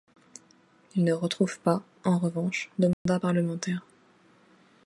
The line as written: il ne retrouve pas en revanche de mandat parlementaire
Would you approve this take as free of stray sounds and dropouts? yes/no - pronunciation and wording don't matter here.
no